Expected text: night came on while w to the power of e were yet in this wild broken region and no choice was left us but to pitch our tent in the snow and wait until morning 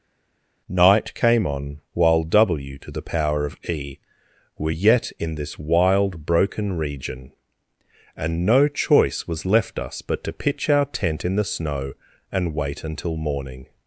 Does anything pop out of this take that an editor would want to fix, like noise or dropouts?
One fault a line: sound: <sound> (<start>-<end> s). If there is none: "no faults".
no faults